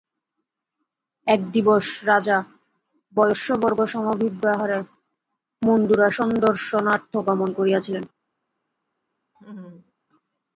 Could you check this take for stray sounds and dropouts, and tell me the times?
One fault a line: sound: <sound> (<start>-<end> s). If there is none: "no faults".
sound: laugh (9.3-9.9 s)